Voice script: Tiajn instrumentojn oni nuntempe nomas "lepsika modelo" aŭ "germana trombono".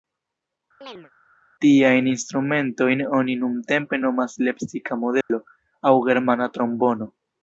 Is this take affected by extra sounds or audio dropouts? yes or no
yes